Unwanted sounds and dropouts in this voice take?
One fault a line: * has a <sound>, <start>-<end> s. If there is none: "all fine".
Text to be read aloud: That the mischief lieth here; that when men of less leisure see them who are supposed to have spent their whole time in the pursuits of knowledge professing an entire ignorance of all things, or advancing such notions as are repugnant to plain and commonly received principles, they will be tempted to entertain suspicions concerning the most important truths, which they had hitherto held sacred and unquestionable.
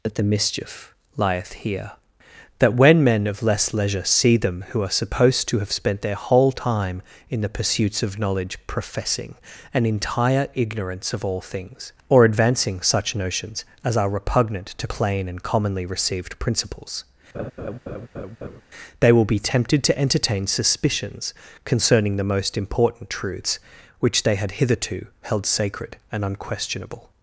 * has a laugh, 17.3-18.6 s